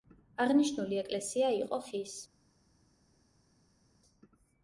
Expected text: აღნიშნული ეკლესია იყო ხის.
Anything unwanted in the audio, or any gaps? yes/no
no